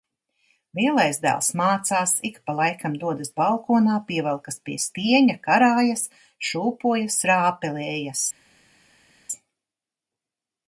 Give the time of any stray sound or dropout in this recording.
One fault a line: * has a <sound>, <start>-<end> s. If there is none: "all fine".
all fine